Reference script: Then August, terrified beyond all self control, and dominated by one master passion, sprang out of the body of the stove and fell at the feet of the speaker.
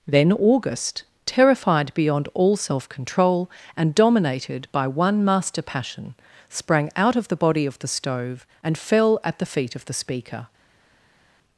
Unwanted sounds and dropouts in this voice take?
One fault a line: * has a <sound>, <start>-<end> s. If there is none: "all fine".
all fine